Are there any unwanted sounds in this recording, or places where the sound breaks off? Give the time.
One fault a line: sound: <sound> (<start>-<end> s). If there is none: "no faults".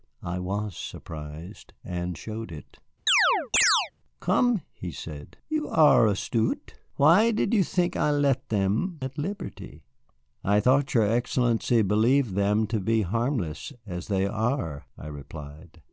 sound: chirp (3.1-3.9 s)